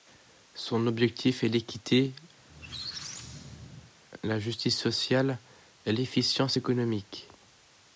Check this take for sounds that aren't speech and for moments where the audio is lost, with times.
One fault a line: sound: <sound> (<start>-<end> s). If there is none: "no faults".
sound: squeak (2.4-3.9 s)